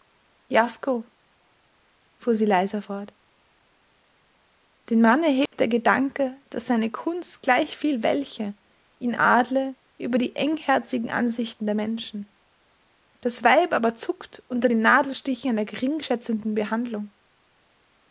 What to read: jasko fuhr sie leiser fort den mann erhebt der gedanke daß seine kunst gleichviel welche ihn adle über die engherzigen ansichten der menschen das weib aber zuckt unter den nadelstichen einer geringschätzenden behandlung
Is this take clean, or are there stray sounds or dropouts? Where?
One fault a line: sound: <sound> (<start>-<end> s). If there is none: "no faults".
sound: dropout (5.5-5.5 s)